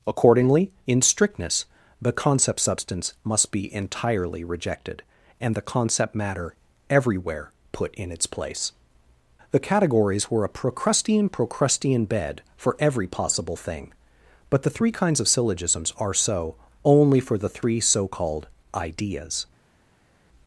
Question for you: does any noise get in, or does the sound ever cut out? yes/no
no